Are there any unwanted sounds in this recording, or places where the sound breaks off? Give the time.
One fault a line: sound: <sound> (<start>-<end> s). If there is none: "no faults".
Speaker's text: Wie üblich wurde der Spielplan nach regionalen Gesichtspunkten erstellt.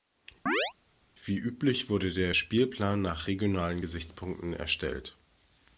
sound: chirp (0.5-0.7 s)